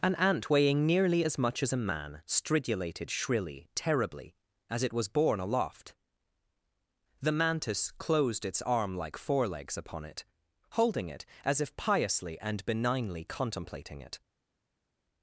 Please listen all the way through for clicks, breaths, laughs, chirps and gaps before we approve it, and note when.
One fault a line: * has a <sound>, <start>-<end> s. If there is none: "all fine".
all fine